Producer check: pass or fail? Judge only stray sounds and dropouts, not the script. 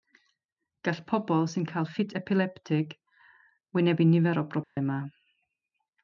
fail